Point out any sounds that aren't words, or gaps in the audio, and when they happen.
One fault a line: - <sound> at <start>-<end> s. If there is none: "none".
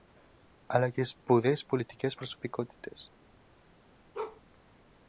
- bark at 4.1-4.4 s